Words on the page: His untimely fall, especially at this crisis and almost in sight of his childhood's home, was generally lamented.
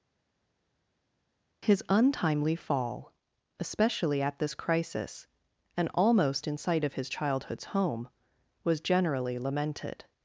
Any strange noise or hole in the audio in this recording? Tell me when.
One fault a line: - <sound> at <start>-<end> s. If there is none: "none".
none